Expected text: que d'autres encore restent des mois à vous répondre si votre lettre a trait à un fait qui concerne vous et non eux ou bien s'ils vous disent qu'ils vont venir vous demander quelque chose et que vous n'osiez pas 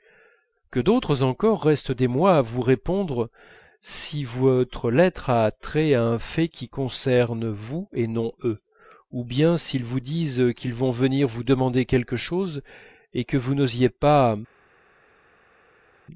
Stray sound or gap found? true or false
false